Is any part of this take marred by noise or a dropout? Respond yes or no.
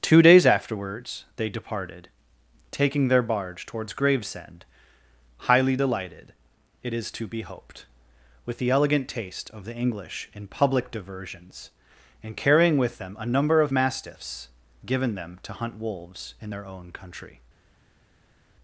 no